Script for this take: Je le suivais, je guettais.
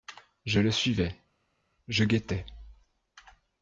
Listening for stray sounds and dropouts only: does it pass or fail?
pass